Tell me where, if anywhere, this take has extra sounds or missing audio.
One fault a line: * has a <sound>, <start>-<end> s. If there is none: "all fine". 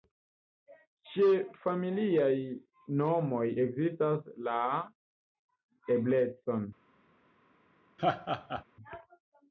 * has a laugh, 8.0-8.6 s